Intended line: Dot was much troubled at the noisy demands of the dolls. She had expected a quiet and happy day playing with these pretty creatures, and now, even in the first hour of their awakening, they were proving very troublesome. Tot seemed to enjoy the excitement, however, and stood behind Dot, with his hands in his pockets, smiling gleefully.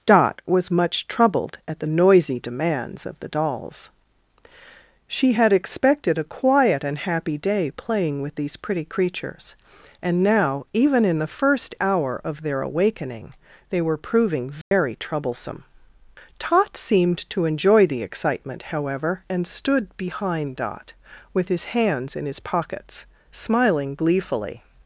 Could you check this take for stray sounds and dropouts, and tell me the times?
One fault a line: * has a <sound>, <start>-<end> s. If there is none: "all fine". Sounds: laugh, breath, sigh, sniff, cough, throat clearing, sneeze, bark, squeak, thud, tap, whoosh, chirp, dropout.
* has a dropout, 14.6-14.7 s